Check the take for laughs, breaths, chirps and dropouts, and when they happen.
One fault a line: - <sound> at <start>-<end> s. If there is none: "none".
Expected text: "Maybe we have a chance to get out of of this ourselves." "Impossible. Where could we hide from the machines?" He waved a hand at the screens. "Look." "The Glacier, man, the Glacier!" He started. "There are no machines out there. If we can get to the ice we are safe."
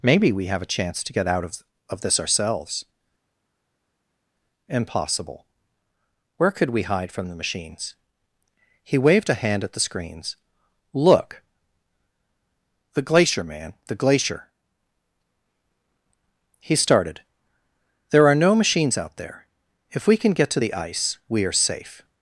none